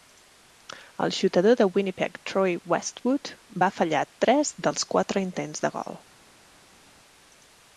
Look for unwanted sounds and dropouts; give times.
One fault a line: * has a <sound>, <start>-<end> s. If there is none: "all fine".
all fine